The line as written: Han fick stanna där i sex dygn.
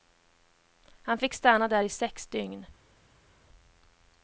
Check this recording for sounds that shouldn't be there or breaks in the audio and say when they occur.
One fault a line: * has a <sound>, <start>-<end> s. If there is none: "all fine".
all fine